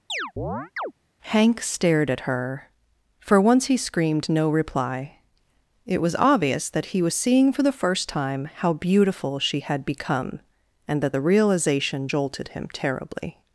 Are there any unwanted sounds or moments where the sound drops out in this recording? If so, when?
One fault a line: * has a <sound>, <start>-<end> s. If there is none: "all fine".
* has a chirp, 0.1-0.9 s